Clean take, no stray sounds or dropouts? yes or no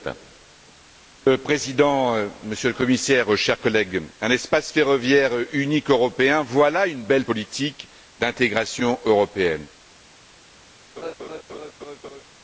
no